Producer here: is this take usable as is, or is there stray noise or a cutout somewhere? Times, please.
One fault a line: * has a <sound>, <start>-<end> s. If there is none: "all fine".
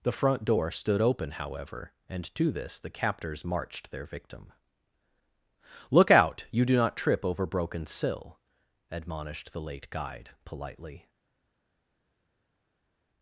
all fine